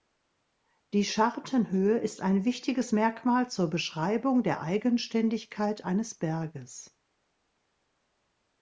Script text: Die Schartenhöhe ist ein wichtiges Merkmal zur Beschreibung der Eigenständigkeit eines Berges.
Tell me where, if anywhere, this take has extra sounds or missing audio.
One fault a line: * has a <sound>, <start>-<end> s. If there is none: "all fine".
all fine